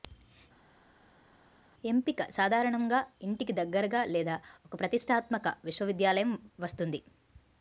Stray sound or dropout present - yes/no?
no